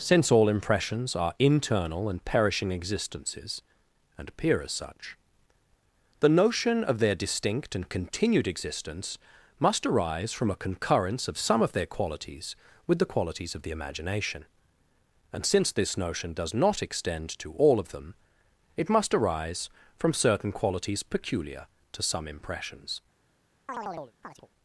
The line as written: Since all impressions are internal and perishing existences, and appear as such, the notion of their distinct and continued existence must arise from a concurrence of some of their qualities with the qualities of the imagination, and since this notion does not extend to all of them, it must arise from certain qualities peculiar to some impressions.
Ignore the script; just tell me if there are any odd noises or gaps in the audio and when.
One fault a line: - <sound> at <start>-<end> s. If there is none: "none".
- chirp at 23.7-24.5 s